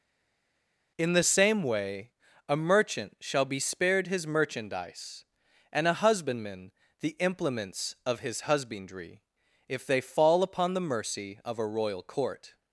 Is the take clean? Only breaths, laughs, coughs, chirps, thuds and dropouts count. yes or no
yes